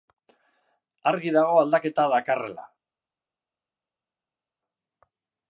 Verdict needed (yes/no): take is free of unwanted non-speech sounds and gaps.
yes